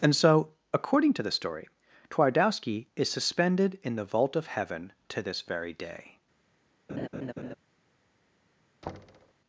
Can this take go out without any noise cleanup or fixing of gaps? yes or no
no